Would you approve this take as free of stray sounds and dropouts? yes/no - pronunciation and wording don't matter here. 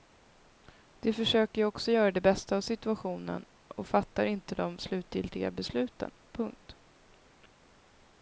yes